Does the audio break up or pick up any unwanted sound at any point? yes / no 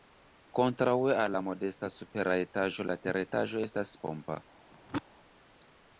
yes